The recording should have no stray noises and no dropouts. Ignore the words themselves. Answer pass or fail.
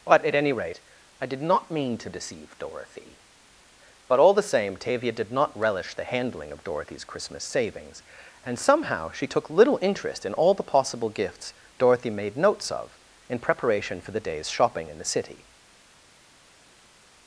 pass